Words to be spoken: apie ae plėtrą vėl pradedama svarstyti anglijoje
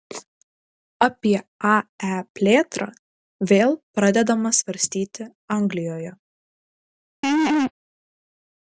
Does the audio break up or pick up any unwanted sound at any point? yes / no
yes